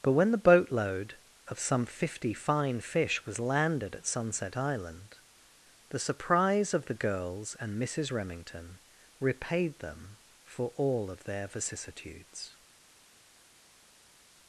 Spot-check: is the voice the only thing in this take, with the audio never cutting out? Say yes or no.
yes